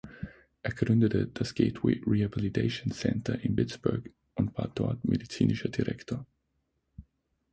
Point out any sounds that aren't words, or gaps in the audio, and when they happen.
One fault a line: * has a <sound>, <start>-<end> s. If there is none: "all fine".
all fine